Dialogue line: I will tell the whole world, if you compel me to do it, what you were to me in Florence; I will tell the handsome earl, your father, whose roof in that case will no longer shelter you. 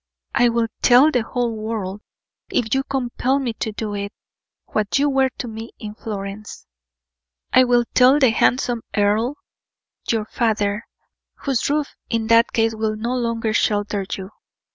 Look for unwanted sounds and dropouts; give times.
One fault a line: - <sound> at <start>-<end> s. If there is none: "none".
none